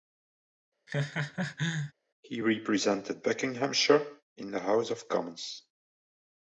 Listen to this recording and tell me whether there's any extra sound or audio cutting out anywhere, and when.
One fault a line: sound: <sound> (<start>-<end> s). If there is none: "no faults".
sound: laugh (0.9-1.9 s)